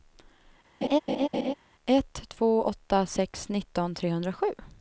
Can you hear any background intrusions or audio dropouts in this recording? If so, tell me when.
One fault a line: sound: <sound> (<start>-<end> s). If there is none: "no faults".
sound: laugh (0.8-1.5 s)